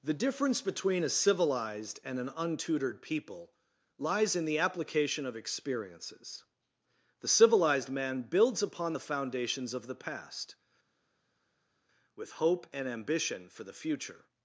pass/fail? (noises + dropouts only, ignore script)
pass